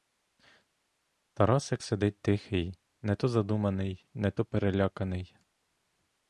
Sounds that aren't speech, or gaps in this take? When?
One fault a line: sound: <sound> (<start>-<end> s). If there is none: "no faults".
no faults